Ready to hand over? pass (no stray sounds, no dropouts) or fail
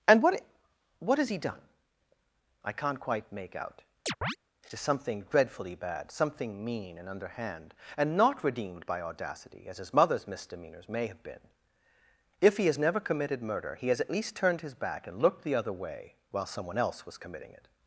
fail